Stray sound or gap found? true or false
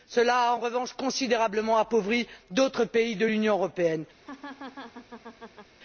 true